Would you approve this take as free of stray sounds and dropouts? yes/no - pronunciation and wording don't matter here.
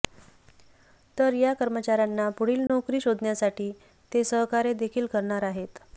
no